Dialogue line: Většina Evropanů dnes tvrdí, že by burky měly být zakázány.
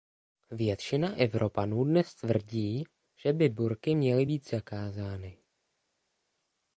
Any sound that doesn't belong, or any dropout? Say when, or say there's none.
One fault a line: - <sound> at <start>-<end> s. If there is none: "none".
none